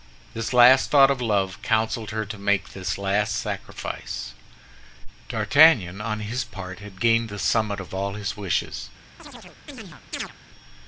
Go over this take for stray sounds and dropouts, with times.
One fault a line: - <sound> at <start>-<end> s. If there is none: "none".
- chirp at 9.2-10.3 s